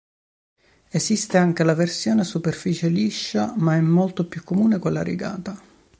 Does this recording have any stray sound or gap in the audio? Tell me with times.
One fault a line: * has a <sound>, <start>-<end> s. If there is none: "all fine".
all fine